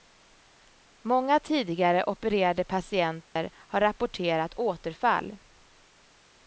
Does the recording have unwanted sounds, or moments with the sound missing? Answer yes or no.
yes